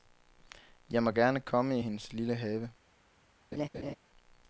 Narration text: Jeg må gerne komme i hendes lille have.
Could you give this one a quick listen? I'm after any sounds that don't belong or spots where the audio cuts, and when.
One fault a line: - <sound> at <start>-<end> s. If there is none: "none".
- laugh at 3.5-4.0 s